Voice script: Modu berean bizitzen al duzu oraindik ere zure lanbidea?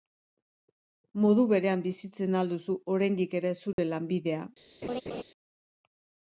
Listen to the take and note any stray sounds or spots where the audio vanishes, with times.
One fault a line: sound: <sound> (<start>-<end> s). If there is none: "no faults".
sound: dropout (3.7-3.8 s)
sound: laugh (4.8-5.2 s)